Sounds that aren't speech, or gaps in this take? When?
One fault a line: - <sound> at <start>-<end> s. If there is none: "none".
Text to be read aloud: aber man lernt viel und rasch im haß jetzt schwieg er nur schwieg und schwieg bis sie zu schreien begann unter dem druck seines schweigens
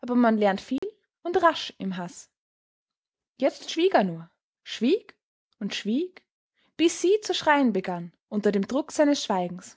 - dropout at 0.8-0.8 s